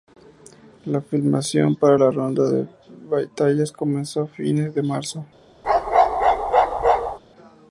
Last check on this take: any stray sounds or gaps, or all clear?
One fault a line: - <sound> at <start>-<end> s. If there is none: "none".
- bark at 5.6-7.2 s